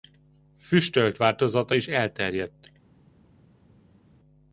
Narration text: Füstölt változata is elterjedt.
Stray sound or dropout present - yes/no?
no